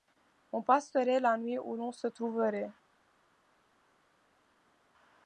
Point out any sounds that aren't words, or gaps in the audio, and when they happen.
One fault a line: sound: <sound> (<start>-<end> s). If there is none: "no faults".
no faults